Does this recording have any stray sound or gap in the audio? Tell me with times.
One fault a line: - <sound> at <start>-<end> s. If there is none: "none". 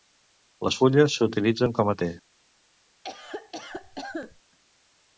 - cough at 3.0-4.4 s